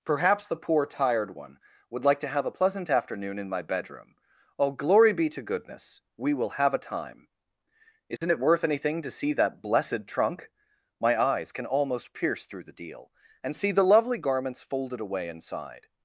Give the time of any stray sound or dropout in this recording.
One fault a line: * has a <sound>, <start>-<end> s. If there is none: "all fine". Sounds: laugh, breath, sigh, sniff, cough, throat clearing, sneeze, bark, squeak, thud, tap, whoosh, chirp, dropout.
* has a dropout, 8.2-8.2 s